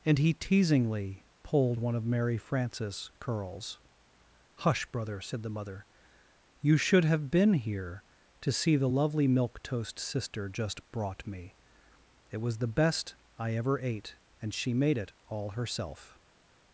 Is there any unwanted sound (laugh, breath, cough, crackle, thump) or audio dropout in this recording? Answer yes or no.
no